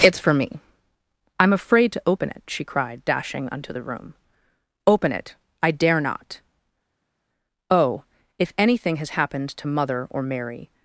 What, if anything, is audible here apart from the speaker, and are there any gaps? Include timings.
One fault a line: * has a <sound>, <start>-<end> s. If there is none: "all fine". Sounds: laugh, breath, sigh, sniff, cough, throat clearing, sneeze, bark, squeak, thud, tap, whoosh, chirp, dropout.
all fine